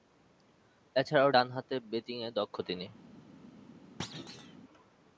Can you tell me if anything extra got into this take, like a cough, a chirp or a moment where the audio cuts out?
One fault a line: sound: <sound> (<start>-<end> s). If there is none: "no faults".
sound: thud (4.0-4.6 s)